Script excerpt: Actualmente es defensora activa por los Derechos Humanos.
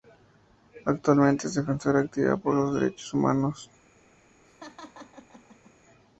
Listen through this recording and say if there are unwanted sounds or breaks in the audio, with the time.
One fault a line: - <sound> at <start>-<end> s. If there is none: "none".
- laugh at 4.4-5.7 s